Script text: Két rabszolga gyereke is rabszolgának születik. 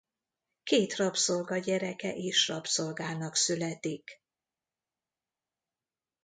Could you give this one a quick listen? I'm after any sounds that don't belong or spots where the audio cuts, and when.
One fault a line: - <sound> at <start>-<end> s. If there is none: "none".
none